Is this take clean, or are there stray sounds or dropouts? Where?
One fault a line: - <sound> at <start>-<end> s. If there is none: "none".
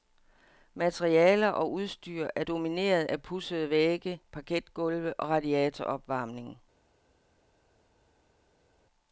none